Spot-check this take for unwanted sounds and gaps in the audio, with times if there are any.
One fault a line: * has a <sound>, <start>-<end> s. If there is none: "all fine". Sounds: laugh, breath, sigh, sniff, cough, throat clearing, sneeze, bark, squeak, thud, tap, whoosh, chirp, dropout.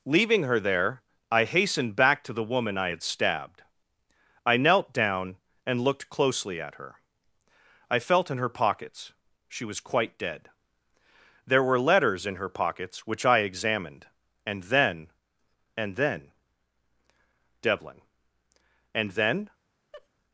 * has a laugh, 19.9-20.1 s